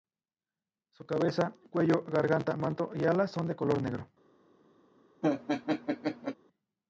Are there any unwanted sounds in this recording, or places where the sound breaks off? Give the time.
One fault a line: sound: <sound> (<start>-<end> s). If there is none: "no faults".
sound: laugh (5.2-6.4 s)